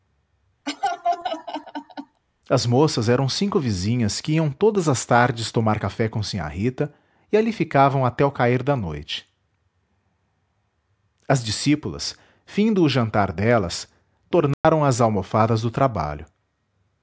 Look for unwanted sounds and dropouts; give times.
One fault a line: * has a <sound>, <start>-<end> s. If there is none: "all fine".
* has a laugh, 0.7-2.2 s
* has a dropout, 14.5-14.6 s